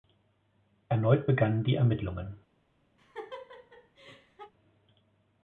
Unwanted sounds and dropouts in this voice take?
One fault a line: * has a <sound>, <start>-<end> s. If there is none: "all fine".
* has a laugh, 3.0-4.5 s